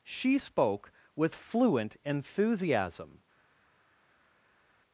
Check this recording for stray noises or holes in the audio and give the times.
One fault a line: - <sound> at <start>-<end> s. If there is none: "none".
none